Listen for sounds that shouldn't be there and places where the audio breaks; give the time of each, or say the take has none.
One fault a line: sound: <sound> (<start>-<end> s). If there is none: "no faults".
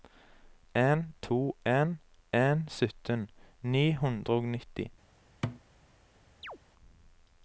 sound: thud (5.4-5.6 s)
sound: chirp (6.4-6.6 s)